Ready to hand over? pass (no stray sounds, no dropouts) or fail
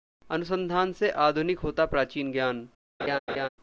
fail